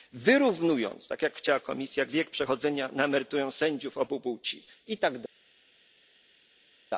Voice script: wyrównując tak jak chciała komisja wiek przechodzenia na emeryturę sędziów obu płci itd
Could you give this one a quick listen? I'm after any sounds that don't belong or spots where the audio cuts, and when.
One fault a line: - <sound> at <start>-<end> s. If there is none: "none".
none